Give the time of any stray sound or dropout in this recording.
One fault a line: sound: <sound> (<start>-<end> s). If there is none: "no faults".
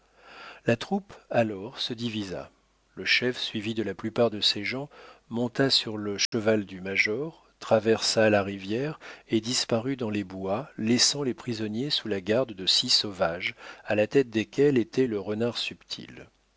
sound: dropout (6.3-6.3 s)